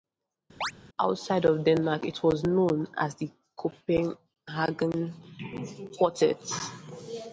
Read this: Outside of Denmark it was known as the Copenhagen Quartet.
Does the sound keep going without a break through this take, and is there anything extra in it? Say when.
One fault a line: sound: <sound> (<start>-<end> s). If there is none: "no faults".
sound: chirp (0.6-0.7 s)